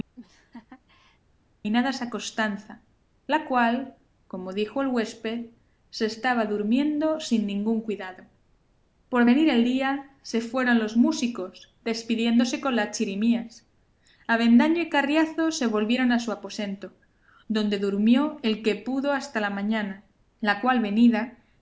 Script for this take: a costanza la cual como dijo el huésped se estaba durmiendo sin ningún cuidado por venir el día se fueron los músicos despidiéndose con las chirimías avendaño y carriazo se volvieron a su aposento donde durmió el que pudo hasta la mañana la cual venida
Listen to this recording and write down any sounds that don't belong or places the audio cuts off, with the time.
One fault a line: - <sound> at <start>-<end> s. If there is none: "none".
- laugh at 0.1-1.2 s